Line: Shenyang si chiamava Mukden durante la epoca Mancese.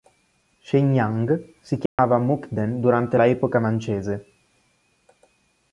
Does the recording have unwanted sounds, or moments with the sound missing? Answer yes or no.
yes